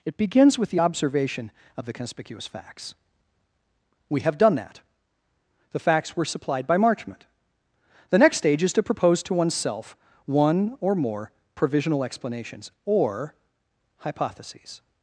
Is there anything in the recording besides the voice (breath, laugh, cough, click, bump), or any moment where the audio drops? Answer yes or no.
no